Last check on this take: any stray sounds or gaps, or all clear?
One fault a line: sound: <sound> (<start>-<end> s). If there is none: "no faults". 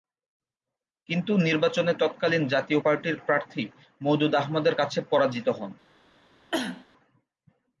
sound: cough (6.5-6.9 s)